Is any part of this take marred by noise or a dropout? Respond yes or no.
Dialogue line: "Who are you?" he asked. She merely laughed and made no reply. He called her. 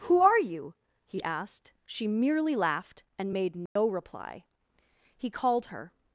yes